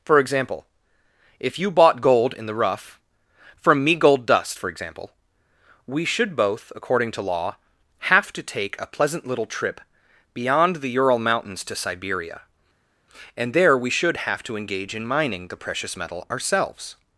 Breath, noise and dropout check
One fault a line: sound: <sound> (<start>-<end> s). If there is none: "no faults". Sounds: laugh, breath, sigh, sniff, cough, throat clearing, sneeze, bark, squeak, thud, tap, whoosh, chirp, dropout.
no faults